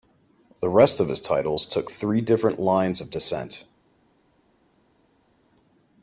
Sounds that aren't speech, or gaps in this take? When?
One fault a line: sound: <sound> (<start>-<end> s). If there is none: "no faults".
no faults